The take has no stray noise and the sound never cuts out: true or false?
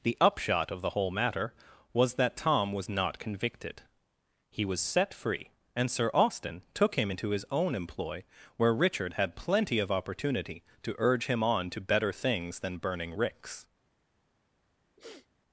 false